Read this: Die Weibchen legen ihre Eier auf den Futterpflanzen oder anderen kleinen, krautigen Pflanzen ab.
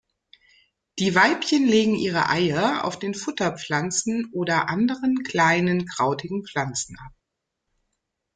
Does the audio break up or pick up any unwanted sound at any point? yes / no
no